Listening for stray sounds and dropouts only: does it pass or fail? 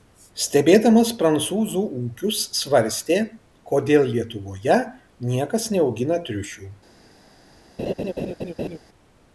fail